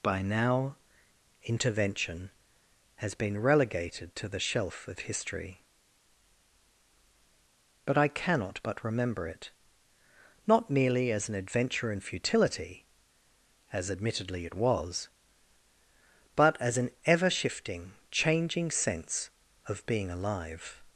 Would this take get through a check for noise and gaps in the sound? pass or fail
pass